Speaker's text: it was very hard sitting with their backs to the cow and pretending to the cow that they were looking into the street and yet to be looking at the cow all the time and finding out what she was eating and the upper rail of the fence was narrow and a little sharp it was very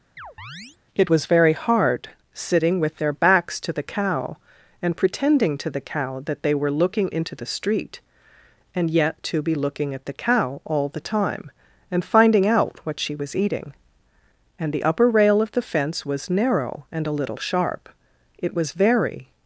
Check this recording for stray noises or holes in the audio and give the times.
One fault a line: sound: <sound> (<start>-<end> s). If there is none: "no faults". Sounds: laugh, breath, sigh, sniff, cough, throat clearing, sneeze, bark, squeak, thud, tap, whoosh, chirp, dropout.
sound: chirp (0.2-0.8 s)